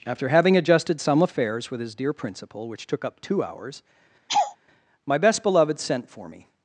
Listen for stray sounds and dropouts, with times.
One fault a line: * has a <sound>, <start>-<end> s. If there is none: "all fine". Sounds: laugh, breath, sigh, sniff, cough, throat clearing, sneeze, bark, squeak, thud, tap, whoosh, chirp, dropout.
* has a laugh, 4.3-4.6 s